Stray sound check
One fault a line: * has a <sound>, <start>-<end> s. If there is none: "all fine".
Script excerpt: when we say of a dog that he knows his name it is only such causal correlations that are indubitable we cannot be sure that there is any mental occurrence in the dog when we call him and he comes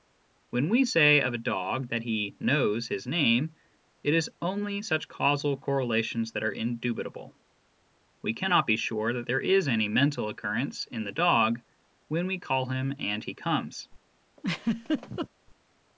* has a laugh, 14.4-15.3 s